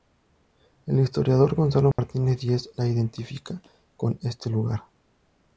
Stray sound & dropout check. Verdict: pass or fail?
fail